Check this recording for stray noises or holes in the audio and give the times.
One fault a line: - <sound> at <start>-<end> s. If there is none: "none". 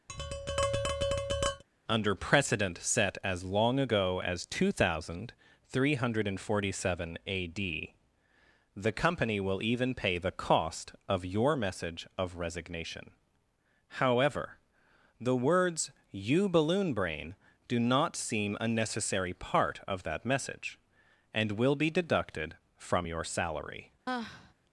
- tap at 0.1-1.6 s
- sigh at 24.1-24.5 s